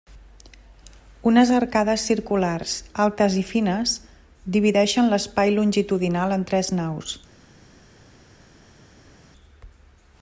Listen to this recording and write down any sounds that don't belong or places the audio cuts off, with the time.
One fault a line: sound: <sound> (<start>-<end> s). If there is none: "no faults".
no faults